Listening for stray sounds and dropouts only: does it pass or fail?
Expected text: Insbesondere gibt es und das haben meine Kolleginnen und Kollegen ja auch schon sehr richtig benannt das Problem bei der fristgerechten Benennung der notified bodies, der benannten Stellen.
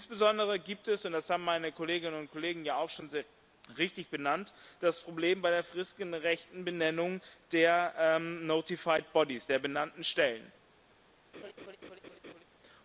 fail